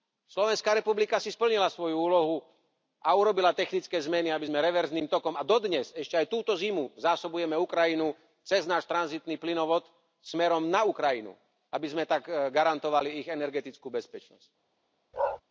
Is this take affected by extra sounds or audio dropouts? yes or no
yes